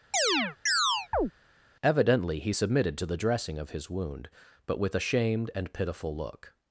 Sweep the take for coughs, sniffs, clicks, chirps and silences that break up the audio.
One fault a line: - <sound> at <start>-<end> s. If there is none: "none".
- chirp at 0.1-1.3 s